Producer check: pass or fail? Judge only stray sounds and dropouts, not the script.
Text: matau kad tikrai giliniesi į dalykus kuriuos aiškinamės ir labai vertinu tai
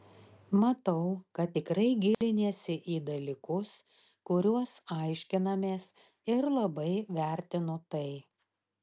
fail